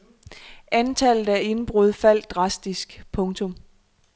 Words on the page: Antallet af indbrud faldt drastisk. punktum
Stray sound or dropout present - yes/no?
no